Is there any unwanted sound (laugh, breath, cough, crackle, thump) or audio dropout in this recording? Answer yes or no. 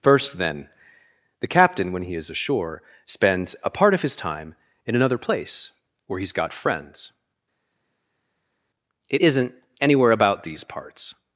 no